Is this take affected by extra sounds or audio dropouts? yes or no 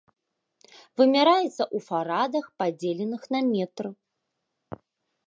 no